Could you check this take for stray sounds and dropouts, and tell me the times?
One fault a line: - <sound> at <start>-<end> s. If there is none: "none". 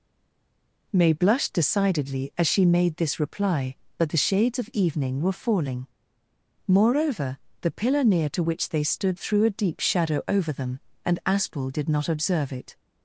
none